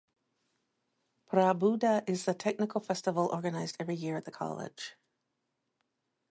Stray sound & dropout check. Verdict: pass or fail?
pass